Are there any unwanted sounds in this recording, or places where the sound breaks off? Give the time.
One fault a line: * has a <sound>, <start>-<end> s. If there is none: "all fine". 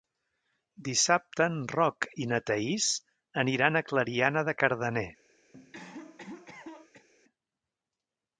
* has a cough, 5.5-7.1 s